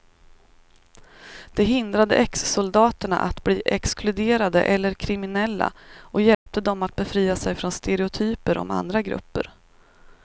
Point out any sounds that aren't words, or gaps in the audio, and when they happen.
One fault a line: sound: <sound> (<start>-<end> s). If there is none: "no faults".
sound: dropout (6.3-6.5 s)